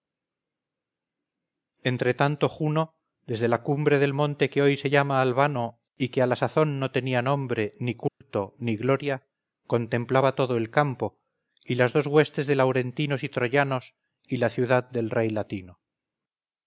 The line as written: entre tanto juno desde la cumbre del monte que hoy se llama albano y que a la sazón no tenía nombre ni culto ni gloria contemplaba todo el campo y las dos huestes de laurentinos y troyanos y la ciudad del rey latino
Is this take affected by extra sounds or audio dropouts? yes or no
yes